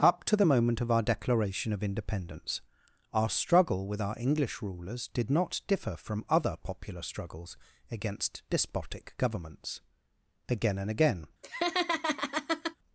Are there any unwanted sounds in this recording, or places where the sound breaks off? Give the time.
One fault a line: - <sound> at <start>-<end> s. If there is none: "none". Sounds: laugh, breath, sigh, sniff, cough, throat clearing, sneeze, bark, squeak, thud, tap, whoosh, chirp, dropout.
- laugh at 11.4-12.8 s